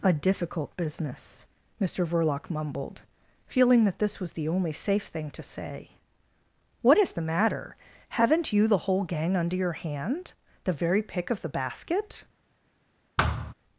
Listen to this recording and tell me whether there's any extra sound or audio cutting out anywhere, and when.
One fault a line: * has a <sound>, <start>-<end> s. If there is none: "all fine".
* has a thud, 13.2-13.5 s